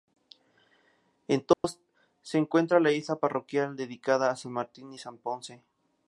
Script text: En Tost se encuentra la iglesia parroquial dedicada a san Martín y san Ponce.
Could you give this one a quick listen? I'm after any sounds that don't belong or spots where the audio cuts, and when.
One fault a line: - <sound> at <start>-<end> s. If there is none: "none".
- dropout at 1.5-1.6 s